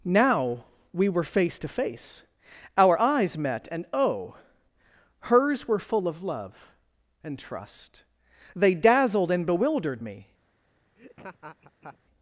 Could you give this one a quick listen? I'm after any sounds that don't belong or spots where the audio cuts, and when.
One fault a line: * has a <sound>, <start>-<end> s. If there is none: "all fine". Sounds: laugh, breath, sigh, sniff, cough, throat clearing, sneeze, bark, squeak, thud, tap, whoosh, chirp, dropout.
* has a laugh, 11.0-12.0 s